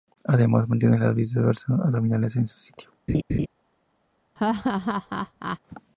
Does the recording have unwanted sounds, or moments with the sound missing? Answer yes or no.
yes